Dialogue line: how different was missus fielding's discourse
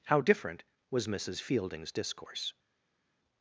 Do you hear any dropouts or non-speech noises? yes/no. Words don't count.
no